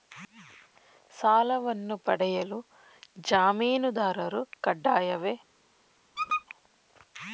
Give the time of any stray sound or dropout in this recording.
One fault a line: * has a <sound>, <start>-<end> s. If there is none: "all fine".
* has a squeak, 6.2-6.5 s